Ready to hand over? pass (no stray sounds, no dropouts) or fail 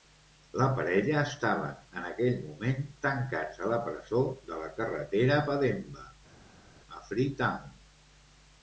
pass